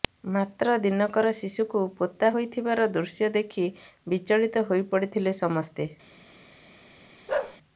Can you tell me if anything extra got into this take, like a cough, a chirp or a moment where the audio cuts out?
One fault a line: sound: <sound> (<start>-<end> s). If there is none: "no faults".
sound: bark (7.3-7.6 s)